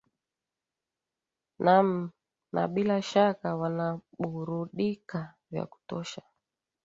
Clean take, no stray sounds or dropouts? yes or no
yes